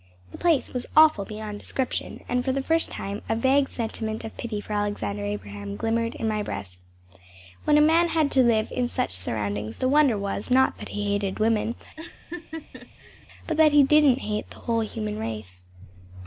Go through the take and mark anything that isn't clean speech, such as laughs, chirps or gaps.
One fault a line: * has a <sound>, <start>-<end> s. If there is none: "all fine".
* has a laugh, 12.0-13.3 s